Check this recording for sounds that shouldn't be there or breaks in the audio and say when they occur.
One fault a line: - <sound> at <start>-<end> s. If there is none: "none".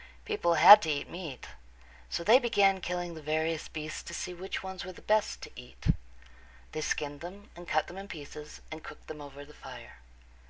none